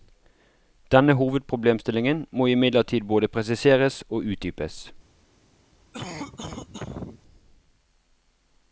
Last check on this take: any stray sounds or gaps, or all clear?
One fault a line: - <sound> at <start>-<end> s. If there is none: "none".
- cough at 5.9-7.2 s